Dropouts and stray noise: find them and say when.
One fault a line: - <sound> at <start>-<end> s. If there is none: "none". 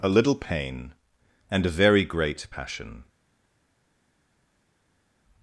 none